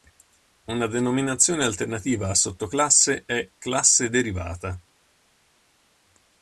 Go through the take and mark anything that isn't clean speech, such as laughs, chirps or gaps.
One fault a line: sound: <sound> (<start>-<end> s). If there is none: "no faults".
no faults